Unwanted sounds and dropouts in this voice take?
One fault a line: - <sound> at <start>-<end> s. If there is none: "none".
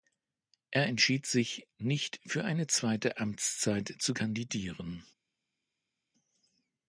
none